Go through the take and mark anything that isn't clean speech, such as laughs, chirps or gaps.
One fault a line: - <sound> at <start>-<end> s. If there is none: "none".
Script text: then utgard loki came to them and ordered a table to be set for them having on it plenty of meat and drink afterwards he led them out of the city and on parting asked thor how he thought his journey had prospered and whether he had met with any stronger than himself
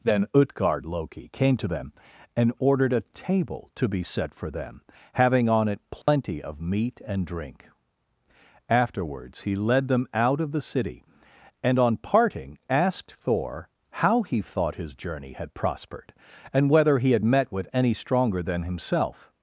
- dropout at 6.0-6.1 s